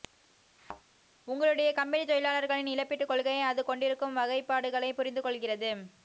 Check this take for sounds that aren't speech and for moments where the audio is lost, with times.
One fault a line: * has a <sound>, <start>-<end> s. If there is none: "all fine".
* has a thud, 0.6-0.8 s